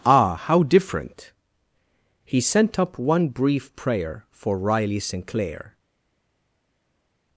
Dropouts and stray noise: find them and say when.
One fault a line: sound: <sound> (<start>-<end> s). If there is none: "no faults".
no faults